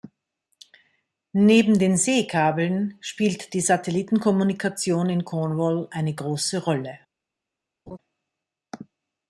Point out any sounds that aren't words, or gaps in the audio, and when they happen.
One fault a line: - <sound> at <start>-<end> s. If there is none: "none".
- laugh at 7.9-8.0 s